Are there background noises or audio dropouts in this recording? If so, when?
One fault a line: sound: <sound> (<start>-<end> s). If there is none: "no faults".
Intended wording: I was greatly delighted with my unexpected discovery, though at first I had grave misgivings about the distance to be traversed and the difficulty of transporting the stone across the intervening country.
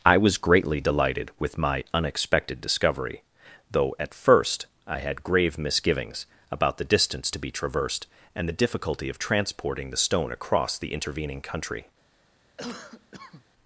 sound: cough (12.6-13.4 s)